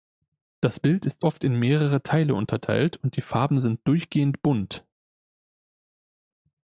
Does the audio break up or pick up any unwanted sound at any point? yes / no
no